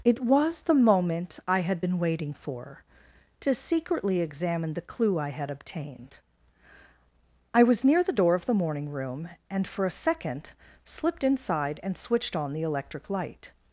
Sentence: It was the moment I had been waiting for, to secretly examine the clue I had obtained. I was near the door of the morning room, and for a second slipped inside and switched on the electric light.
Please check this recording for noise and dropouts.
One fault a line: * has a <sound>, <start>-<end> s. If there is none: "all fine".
all fine